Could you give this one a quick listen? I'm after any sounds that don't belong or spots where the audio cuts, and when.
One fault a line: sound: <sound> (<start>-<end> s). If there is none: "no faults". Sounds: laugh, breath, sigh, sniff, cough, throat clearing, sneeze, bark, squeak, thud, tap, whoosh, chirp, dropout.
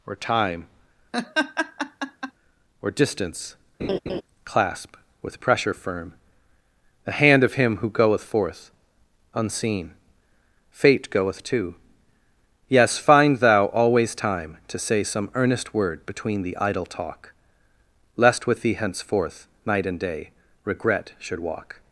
sound: laugh (1.1-2.3 s)
sound: laugh (3.8-4.2 s)